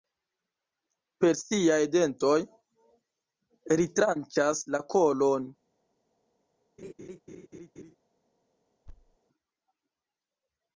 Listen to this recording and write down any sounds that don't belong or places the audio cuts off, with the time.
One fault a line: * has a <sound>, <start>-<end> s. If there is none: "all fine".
* has a laugh, 6.8-8.0 s
* has a thud, 8.9-9.2 s